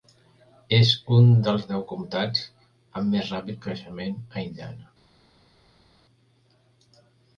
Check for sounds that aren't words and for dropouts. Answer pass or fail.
pass